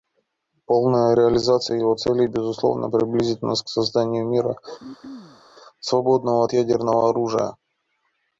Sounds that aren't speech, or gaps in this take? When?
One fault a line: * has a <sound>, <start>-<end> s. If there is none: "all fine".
* has a throat clearing, 4.8-5.4 s